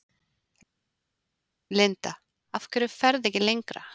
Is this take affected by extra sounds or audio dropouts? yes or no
no